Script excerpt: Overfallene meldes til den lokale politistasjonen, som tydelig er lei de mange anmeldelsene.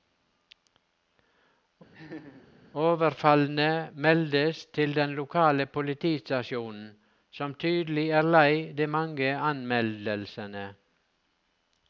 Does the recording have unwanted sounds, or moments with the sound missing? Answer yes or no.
yes